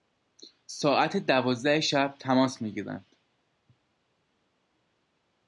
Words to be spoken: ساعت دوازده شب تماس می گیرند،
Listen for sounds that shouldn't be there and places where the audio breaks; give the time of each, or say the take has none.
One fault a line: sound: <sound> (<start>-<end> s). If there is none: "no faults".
no faults